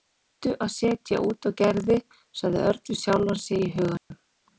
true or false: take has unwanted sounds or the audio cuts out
true